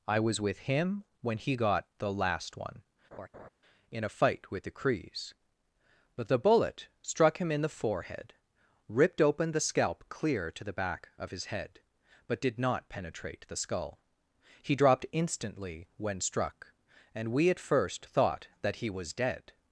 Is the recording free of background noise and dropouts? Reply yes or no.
no